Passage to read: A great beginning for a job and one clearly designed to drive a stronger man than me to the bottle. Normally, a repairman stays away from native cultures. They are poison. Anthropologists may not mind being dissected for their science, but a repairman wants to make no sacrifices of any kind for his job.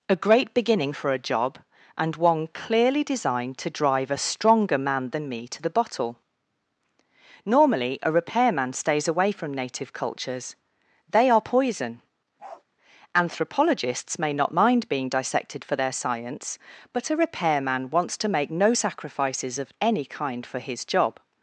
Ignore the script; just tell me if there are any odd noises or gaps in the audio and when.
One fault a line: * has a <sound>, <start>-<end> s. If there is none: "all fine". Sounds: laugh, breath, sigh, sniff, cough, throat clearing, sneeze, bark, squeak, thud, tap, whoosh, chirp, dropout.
* has a bark, 12.4-12.6 s